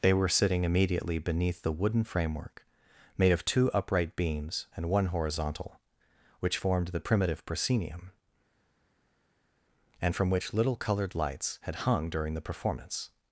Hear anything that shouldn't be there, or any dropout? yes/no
no